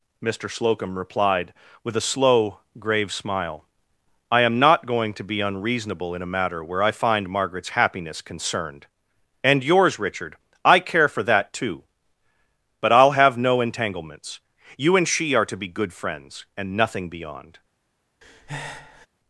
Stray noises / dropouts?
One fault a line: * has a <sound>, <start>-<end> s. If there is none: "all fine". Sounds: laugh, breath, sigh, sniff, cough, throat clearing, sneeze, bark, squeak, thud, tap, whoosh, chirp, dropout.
* has a breath, 18.2-19.1 s